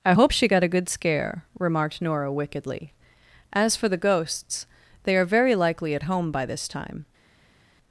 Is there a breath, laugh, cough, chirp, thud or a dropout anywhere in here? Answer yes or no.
no